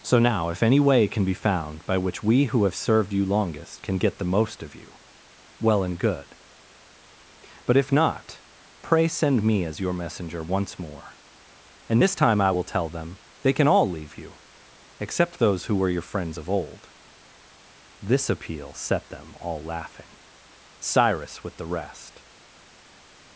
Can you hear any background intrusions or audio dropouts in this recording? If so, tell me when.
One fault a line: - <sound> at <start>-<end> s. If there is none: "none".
none